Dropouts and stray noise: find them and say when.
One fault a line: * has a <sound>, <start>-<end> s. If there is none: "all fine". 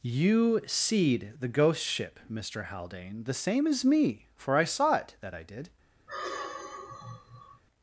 * has a sigh, 6.1-7.6 s